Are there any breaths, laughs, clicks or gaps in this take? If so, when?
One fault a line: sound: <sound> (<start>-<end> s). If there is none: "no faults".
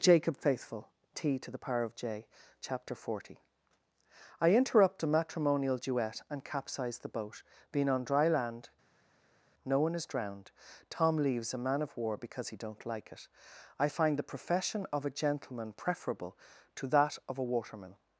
no faults